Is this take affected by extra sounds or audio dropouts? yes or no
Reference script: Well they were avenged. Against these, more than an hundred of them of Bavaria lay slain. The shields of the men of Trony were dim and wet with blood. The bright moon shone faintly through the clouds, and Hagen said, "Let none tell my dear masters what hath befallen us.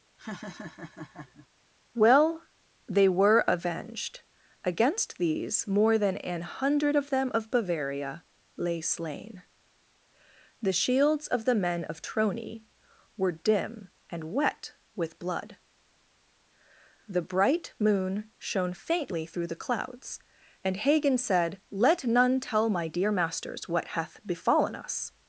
yes